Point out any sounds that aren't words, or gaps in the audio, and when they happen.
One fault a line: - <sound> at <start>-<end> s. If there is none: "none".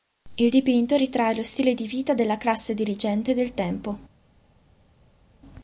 none